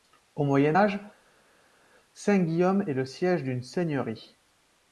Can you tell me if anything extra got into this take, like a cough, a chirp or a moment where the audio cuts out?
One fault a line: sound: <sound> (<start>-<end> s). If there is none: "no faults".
no faults